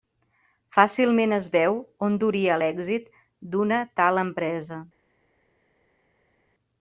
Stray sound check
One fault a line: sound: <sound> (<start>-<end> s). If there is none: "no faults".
no faults